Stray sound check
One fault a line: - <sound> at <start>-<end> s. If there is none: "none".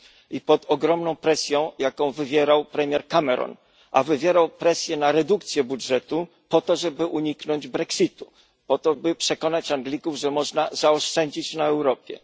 none